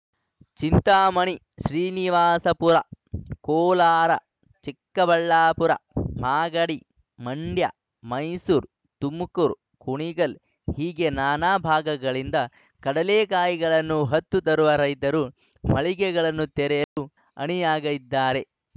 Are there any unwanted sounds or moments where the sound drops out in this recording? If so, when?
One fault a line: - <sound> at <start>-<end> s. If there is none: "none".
- dropout at 16.8-17.0 s